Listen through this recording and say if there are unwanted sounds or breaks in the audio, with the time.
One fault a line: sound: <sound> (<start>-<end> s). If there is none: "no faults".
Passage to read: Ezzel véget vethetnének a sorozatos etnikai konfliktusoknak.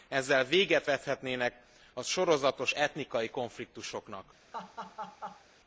sound: laugh (4.5-5.4 s)